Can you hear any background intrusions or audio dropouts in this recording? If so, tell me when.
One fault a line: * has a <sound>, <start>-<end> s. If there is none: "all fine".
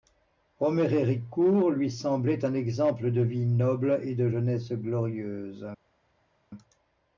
all fine